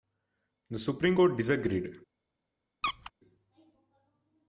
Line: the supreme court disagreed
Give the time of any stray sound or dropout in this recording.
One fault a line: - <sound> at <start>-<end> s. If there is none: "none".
- squeak at 2.8-3.1 s